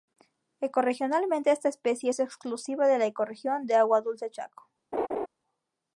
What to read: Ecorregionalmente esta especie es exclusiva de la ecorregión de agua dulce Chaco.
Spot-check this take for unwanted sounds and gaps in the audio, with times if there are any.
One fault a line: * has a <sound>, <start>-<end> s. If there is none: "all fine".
* has a laugh, 4.9-5.3 s